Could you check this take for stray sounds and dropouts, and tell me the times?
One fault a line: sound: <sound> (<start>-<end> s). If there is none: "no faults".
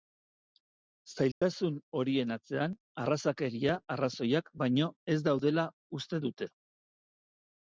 sound: dropout (1.3-1.4 s)